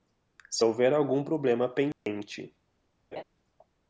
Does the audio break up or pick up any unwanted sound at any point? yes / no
yes